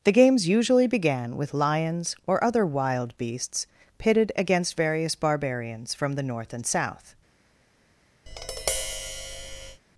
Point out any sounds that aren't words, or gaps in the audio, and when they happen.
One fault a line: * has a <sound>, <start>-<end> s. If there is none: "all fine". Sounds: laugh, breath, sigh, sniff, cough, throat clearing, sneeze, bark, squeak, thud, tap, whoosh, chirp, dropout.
* has a tap, 8.3-9.8 s